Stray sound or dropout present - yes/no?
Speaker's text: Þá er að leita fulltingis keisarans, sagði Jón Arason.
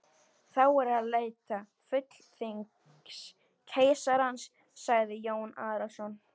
no